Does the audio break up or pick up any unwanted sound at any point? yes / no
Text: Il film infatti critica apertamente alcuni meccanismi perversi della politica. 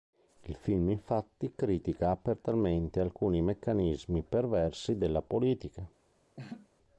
yes